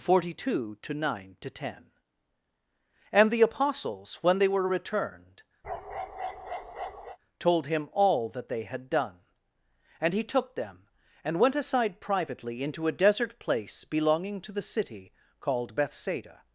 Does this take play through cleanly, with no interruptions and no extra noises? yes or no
no